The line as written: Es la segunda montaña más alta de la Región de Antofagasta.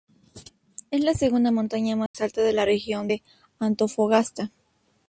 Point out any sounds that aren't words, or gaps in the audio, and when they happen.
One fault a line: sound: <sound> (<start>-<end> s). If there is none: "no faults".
sound: dropout (2.1-2.1 s)